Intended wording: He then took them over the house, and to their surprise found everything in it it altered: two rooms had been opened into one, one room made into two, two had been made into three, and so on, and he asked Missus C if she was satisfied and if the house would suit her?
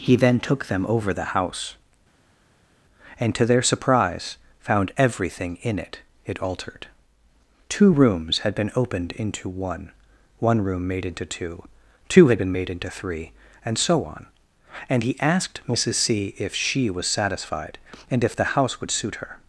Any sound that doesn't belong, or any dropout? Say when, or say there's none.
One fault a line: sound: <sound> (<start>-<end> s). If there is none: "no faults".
no faults